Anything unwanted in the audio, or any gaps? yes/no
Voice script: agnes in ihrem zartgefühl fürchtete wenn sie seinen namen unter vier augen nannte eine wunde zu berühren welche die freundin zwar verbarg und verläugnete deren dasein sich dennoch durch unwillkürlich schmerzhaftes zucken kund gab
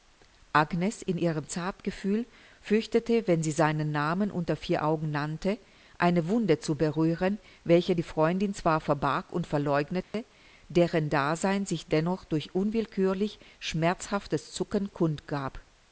yes